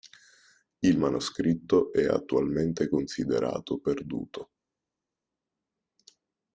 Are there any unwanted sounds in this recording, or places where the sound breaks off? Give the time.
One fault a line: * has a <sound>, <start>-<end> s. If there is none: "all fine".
all fine